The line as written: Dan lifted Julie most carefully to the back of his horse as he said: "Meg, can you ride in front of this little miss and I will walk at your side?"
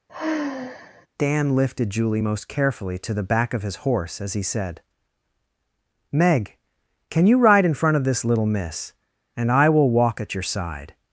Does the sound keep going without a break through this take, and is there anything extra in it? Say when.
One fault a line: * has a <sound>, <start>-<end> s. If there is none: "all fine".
* has a sigh, 0.1-1.1 s